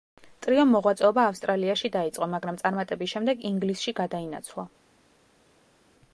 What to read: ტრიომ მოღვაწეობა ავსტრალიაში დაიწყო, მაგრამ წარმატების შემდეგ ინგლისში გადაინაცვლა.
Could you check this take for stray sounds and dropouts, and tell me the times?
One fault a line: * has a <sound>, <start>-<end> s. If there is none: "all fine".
all fine